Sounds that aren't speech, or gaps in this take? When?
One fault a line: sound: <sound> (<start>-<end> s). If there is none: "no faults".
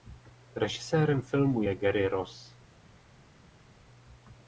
no faults